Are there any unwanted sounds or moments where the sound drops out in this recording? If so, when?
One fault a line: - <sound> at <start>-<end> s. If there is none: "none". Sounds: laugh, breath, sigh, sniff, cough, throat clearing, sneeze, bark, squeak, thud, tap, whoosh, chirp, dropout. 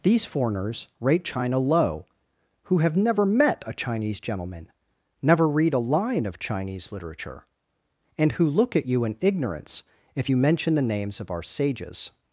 none